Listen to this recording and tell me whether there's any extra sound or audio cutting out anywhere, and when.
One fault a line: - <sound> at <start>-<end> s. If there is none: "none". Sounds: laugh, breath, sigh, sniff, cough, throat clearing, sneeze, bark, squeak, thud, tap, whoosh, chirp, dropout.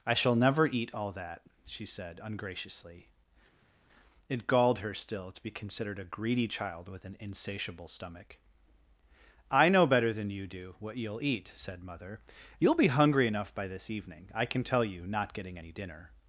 none